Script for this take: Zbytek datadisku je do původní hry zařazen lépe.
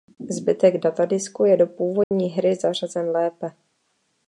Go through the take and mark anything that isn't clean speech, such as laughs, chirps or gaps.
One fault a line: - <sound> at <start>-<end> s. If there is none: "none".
- dropout at 2.0-2.1 s